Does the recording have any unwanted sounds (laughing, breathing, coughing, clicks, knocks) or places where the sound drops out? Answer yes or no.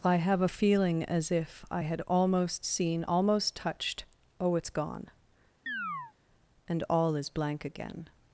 yes